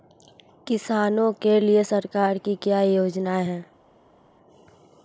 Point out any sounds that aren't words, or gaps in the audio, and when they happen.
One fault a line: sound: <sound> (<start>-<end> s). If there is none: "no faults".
no faults